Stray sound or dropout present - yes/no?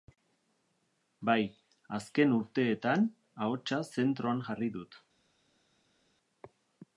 no